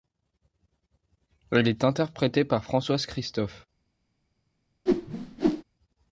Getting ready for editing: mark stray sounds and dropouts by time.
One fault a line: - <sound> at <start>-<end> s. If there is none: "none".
- whoosh at 4.9-5.6 s